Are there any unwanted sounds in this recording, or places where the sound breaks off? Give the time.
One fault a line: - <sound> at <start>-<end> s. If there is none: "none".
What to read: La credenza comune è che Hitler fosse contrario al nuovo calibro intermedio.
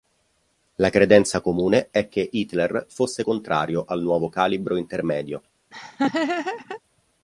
- laugh at 5.7-6.8 s